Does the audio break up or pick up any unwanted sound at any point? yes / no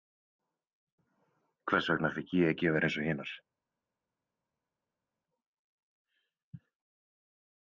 no